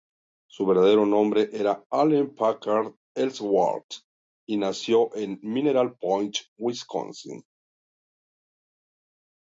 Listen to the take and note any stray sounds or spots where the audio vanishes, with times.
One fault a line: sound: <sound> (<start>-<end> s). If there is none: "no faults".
no faults